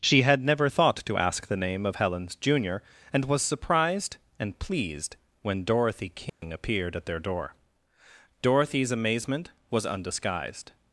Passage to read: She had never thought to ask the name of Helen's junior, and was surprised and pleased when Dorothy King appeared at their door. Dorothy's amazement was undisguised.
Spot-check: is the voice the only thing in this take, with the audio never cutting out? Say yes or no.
no